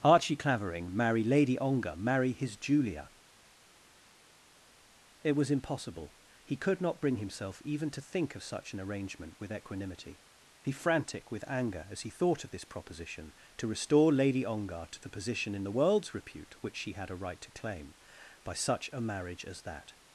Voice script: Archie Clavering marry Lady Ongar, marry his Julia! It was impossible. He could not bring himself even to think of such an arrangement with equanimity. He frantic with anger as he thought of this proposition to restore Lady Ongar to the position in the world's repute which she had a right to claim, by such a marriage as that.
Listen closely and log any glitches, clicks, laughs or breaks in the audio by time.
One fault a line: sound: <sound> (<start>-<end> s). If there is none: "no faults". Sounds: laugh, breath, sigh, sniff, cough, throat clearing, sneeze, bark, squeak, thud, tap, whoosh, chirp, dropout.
no faults